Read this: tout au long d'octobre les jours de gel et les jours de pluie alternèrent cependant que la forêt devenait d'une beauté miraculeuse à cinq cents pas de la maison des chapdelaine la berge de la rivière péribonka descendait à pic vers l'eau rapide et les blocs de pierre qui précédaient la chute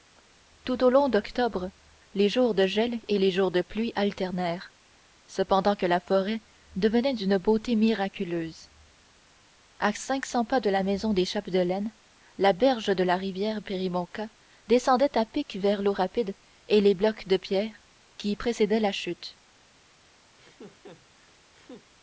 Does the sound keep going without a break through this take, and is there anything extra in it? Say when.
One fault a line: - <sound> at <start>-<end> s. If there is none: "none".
- laugh at 20.3-21.9 s